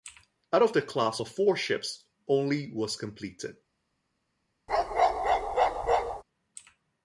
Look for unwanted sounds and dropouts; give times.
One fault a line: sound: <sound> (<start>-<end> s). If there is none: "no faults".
sound: bark (4.7-6.2 s)